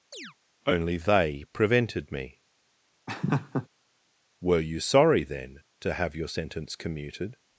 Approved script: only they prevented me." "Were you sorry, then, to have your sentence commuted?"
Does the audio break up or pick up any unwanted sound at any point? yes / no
yes